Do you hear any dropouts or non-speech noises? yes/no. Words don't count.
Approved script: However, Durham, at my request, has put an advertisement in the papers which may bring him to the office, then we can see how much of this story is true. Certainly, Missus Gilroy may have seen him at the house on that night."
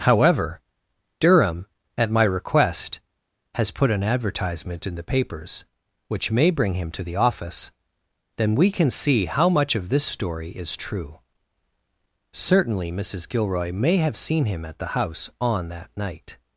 no